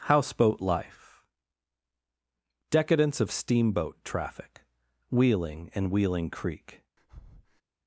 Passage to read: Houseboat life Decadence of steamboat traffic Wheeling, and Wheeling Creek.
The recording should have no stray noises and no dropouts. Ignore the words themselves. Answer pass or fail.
fail